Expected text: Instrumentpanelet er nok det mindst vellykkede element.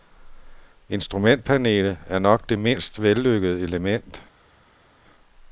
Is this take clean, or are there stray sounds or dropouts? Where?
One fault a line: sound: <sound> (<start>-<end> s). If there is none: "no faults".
no faults